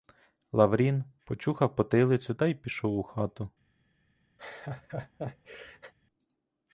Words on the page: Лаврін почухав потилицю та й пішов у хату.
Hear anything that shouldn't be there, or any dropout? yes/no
yes